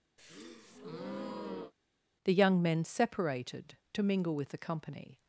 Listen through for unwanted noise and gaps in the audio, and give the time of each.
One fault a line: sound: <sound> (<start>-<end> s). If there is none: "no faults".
sound: breath (0.2-1.7 s)